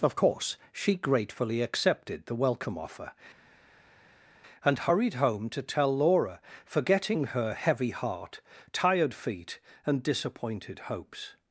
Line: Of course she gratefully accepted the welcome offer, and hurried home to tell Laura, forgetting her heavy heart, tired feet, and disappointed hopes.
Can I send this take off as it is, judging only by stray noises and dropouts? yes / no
yes